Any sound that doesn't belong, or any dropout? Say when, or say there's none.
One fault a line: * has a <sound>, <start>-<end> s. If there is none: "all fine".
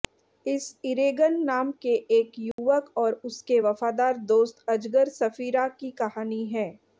* has a dropout, 2.5-2.6 s